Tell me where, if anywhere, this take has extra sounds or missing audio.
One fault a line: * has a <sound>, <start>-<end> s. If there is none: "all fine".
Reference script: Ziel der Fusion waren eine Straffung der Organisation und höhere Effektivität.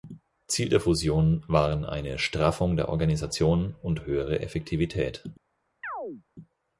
* has a chirp, 5.8-6.2 s